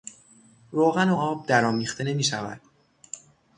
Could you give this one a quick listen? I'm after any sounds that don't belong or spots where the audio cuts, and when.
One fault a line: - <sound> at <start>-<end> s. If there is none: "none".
none